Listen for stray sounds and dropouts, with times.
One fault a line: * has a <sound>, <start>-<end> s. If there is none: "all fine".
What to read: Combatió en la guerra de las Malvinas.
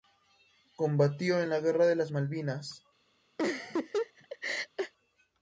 * has a laugh, 3.4-4.9 s